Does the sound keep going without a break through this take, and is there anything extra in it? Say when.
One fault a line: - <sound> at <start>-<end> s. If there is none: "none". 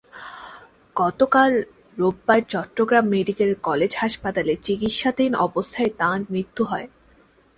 none